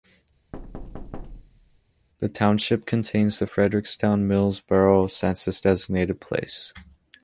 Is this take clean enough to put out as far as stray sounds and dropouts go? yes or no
no